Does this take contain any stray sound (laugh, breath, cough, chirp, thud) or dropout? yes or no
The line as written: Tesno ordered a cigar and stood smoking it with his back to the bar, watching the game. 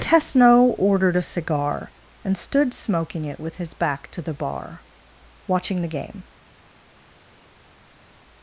no